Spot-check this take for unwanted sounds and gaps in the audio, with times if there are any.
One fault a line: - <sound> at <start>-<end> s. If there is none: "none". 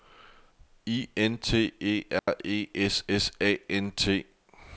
- dropout at 2.2-2.3 s